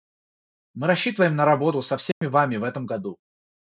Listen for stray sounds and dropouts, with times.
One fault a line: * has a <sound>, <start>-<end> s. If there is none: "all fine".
* has a dropout, 2.1-2.2 s